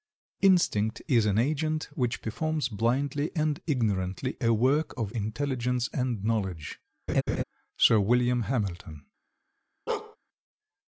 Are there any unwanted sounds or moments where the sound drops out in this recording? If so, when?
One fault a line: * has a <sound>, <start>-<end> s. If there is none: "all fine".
* has a laugh, 7.1-7.4 s
* has a bark, 9.9-10.2 s